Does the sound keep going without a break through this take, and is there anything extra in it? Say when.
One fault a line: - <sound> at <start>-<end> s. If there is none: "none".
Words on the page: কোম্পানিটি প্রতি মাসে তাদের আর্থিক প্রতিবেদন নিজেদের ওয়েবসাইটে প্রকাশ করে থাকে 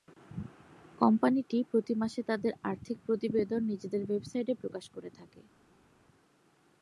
none